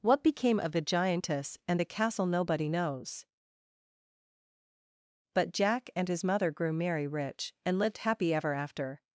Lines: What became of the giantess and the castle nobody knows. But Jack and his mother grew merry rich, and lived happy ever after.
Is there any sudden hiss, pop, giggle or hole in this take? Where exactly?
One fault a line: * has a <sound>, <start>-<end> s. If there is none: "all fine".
all fine